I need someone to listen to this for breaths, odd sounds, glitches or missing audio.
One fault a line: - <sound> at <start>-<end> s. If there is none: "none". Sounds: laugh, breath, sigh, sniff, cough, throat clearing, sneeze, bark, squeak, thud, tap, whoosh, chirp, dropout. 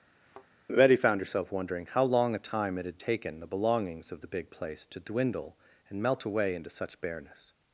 - thud at 0.2-0.5 s